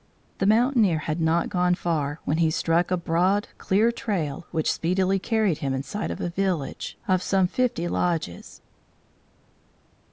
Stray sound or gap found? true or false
false